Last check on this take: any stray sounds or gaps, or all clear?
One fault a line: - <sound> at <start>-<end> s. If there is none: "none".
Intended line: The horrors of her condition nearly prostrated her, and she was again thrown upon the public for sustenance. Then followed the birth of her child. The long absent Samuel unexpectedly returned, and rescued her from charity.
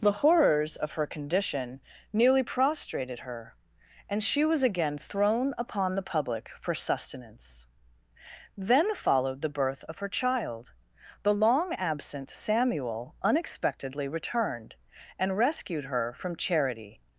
none